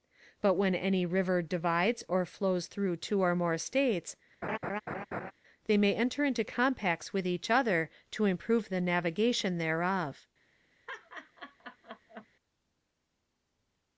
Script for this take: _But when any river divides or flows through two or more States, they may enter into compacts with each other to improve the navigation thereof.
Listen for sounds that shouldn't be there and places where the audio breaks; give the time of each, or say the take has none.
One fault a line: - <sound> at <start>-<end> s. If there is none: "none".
- laugh at 4.4-5.3 s
- laugh at 10.9-12.3 s